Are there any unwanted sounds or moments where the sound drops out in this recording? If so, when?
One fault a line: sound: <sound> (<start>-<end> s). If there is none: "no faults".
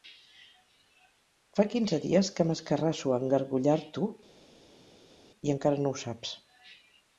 no faults